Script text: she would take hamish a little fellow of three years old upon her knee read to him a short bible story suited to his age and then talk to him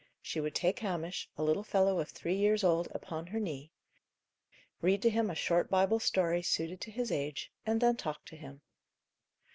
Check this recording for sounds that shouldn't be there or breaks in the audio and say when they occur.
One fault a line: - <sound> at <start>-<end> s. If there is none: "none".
none